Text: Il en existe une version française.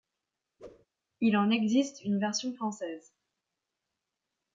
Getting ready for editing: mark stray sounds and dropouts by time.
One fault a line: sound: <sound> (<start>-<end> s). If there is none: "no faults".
sound: whoosh (0.6-0.9 s)